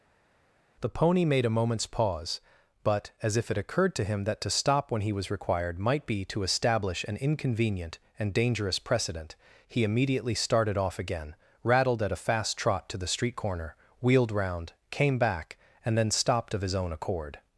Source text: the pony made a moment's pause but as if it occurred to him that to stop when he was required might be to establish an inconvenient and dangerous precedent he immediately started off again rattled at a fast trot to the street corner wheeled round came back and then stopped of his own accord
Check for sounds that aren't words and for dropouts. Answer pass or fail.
pass